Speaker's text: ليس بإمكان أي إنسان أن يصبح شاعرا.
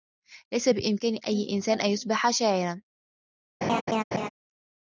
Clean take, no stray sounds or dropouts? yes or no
no